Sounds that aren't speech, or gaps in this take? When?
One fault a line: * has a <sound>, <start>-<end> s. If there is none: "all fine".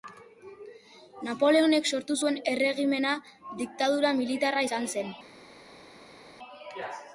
all fine